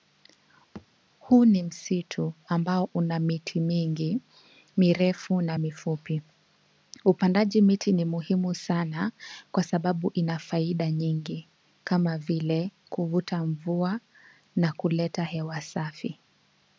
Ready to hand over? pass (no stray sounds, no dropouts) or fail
fail